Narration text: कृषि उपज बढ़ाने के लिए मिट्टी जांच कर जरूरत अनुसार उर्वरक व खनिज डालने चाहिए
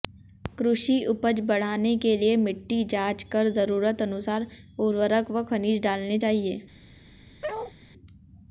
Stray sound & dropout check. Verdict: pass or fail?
fail